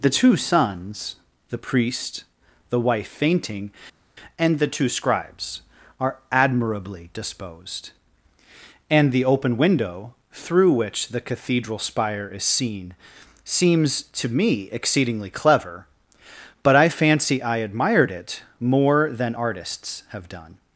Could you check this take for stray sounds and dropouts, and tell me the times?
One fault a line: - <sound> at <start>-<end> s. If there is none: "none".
none